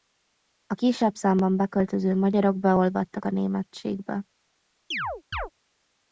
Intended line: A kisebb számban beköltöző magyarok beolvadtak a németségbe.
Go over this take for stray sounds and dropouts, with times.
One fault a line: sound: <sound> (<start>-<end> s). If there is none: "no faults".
sound: chirp (4.9-5.5 s)